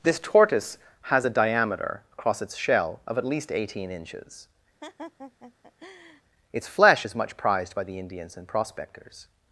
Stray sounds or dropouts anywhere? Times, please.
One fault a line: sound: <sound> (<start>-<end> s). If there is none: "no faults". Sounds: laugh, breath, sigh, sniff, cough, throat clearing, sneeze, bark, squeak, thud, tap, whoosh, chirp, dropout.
sound: laugh (4.8-6.2 s)